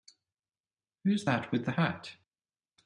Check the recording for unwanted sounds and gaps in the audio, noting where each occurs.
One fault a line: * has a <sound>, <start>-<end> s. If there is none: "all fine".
all fine